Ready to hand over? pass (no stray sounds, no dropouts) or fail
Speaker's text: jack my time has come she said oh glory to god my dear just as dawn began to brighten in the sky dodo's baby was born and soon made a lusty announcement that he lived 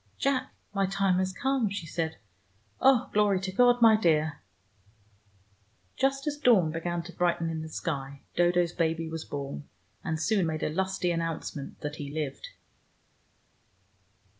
pass